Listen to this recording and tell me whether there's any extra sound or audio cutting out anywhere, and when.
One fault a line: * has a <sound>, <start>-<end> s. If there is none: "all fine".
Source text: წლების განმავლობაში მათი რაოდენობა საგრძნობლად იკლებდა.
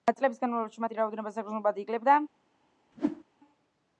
* has a whoosh, 2.9-3.2 s